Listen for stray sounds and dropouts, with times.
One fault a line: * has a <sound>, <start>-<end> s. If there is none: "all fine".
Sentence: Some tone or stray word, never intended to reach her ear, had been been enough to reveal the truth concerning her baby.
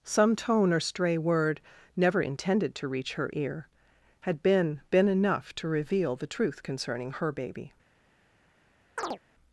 * has a chirp, 9.0-9.2 s